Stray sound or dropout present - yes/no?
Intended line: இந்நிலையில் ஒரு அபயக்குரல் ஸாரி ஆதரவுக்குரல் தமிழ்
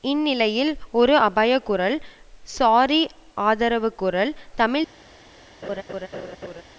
yes